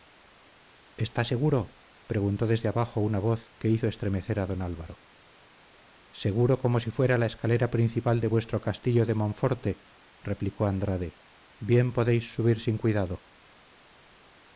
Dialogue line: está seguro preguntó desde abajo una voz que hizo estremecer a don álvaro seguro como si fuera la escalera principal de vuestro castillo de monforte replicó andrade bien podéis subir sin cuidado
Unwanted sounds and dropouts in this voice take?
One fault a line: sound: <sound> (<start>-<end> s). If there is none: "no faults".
no faults